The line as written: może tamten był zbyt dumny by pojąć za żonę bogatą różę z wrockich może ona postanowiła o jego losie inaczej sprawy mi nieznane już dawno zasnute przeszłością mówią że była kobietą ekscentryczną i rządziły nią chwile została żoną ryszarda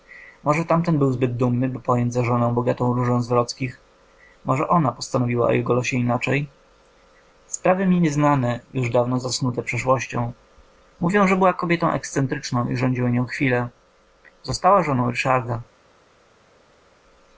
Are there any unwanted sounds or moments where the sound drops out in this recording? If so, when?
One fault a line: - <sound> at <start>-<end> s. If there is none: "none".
none